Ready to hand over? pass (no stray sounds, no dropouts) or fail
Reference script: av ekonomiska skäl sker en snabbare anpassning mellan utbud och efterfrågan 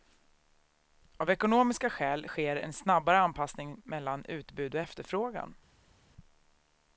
pass